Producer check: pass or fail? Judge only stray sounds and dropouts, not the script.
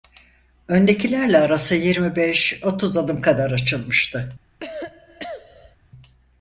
fail